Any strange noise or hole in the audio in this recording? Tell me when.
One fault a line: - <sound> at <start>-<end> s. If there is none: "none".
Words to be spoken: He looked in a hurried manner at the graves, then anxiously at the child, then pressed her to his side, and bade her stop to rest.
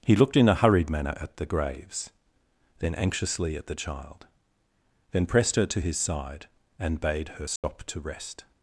- dropout at 7.6-7.6 s